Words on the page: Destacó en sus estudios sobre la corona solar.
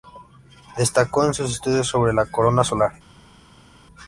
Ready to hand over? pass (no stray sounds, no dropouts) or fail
pass